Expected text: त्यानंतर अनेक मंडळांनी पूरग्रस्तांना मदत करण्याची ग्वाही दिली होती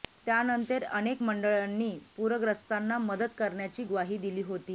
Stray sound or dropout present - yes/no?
no